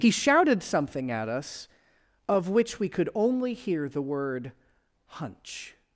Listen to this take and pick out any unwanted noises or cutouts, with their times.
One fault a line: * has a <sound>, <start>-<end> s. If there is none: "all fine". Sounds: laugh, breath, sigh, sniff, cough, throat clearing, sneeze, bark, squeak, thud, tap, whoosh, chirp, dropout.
all fine